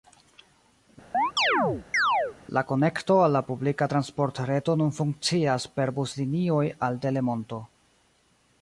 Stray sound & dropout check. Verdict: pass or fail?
fail